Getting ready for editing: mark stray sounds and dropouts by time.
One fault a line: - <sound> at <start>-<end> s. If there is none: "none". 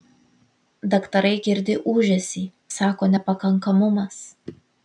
none